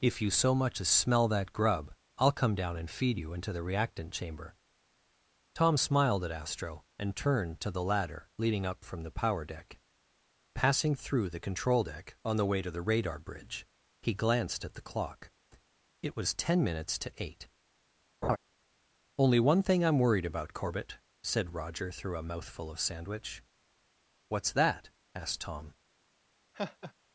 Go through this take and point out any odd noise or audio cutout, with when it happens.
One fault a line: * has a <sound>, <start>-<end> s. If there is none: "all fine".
* has a laugh, 18.2-18.4 s
* has a laugh, 26.5-26.9 s